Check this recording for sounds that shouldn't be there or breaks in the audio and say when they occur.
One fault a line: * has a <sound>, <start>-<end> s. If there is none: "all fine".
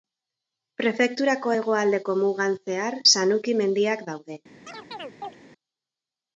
* has a chirp, 4.7-5.4 s